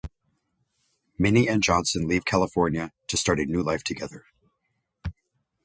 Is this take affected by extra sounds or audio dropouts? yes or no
no